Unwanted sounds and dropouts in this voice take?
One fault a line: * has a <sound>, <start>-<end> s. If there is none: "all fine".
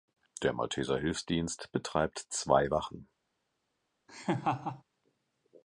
* has a laugh, 4.1-4.8 s